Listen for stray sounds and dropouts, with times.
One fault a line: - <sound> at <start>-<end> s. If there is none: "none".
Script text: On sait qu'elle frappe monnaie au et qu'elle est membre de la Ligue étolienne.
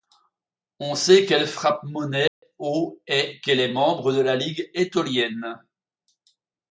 - dropout at 2.3-2.4 s